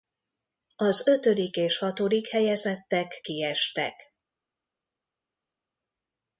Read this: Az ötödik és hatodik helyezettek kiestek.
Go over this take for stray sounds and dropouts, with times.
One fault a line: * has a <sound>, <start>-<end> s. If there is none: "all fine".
all fine